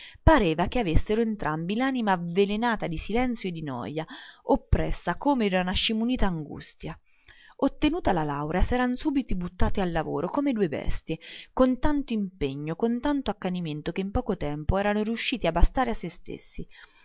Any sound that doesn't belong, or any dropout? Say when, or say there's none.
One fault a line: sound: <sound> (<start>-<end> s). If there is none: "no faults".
no faults